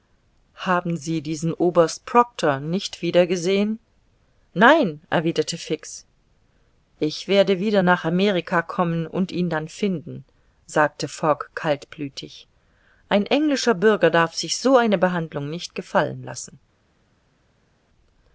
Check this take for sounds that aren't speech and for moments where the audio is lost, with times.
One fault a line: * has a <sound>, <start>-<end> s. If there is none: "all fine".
all fine